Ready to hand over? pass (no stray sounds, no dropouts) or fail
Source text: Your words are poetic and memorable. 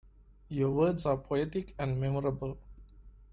pass